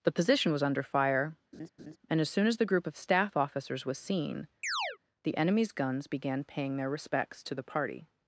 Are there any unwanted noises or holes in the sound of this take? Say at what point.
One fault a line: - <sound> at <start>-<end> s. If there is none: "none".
- laugh at 1.5-2.0 s
- chirp at 4.6-5.0 s